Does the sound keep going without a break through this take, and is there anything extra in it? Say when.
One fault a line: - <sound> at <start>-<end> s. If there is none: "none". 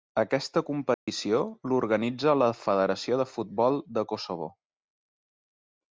- dropout at 0.9-1.1 s